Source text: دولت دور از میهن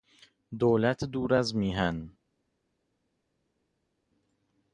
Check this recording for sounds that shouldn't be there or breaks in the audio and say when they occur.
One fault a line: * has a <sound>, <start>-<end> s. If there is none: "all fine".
all fine